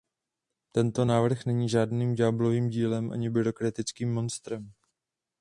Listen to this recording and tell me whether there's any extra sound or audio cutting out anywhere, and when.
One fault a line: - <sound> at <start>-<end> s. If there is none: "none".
none